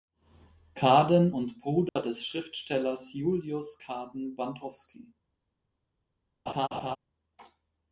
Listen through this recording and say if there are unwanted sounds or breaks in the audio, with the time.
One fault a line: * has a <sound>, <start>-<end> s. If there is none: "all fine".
* has a dropout, 1.9-2.0 s
* has a laugh, 6.5-7.0 s